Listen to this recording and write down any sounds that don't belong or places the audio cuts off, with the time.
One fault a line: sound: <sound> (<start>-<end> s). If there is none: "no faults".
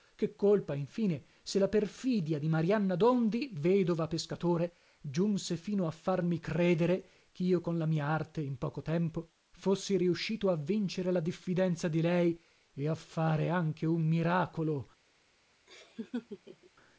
sound: laugh (15.7-16.7 s)